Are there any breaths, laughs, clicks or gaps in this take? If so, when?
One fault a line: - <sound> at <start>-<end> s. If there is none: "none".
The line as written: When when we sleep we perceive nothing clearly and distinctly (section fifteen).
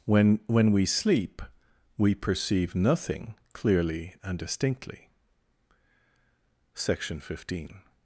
none